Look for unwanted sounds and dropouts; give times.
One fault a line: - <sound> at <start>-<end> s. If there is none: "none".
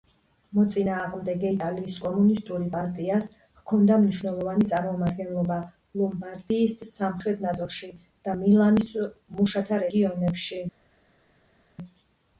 none